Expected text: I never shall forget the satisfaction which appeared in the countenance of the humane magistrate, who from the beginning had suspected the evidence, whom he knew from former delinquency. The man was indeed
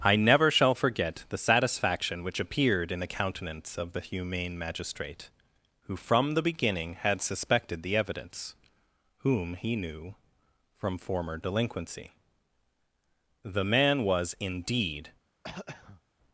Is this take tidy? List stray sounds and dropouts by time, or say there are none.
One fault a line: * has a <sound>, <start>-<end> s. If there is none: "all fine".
* has a throat clearing, 15.4-16.0 s